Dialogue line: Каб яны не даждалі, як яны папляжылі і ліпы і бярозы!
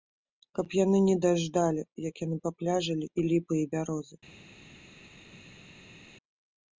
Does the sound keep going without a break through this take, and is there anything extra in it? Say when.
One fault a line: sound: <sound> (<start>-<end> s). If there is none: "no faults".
no faults